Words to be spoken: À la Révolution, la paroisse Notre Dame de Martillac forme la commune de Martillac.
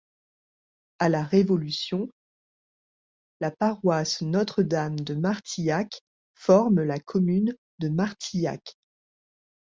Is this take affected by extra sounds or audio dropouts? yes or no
no